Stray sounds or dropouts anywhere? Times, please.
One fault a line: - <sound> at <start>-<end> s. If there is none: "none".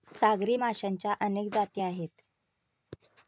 none